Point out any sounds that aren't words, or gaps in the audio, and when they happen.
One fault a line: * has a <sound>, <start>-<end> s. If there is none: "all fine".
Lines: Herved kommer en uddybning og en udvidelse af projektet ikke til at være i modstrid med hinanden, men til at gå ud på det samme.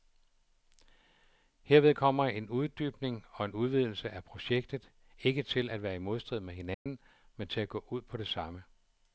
* has a dropout, 6.7-6.9 s